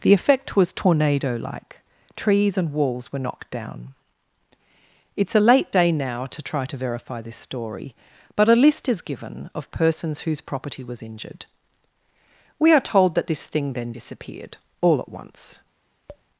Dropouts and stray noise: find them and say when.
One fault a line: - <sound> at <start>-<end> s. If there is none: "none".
- tap at 16.1-16.3 s